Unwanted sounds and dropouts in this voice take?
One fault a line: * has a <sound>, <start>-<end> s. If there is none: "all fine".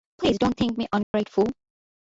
* has a dropout, 1.0-1.1 s